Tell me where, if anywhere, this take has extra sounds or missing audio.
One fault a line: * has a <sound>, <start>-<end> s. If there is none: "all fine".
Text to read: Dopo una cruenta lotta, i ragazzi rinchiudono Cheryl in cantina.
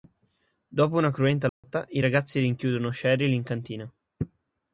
* has a dropout, 1.5-1.6 s